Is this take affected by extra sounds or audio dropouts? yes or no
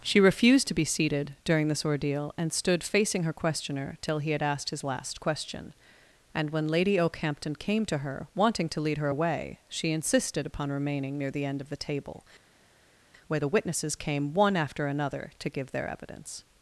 no